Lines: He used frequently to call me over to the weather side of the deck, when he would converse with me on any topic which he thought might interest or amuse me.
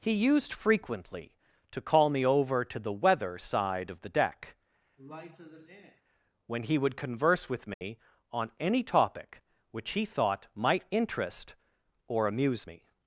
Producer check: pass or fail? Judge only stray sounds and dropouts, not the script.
fail